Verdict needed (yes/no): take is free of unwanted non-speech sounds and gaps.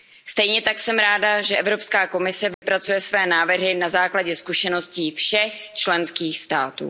no